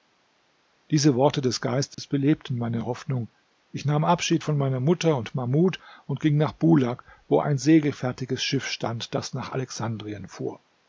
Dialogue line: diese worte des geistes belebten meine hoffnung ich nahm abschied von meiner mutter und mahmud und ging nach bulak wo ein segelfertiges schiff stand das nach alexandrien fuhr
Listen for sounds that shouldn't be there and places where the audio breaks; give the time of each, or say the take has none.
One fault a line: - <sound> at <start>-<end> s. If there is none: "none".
- dropout at 1.9-2.0 s